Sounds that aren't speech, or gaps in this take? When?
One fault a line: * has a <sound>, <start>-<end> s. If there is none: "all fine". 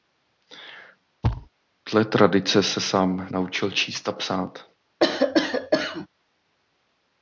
* has a thud, 1.2-1.5 s
* has a cough, 5.0-6.1 s